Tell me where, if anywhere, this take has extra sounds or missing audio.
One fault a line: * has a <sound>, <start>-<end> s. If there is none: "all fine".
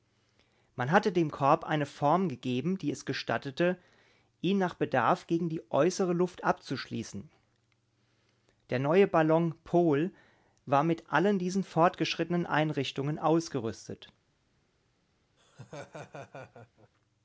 * has a laugh, 15.4-16.9 s